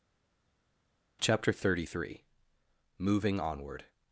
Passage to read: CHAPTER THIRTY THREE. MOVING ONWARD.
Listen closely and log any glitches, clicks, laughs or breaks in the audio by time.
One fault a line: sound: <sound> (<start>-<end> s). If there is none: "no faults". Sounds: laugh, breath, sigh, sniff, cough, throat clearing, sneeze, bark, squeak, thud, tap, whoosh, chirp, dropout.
no faults